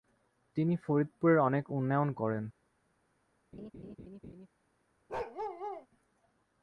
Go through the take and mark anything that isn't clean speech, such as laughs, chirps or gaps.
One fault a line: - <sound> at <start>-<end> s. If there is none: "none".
- laugh at 3.5-4.5 s
- bark at 5.1-5.9 s